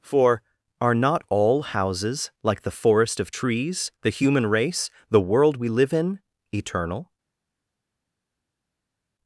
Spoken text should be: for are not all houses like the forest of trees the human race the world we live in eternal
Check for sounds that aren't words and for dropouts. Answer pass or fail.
pass